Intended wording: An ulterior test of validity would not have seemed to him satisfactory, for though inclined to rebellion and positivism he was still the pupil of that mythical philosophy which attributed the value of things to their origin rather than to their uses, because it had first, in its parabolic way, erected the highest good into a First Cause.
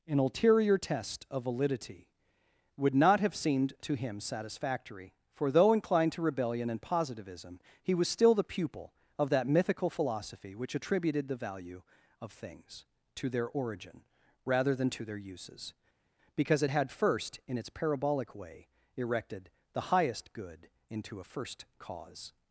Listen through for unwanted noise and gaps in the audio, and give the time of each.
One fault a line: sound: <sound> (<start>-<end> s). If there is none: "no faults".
no faults